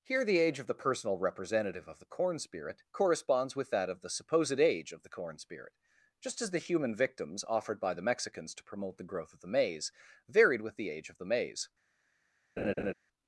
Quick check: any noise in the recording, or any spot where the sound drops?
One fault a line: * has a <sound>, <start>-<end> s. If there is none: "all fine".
* has a laugh, 12.6-12.9 s